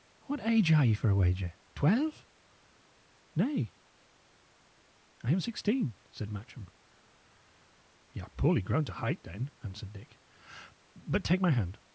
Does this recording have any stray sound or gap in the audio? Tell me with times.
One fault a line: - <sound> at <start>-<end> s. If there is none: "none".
none